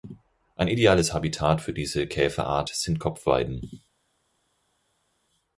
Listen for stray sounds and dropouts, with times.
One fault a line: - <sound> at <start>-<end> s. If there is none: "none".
none